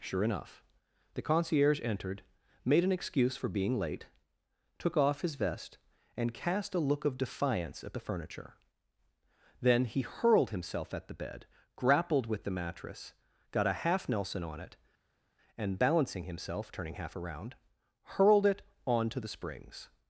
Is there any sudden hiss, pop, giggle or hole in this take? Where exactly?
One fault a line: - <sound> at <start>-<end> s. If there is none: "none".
none